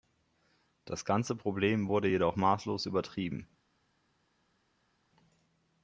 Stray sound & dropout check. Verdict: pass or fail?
pass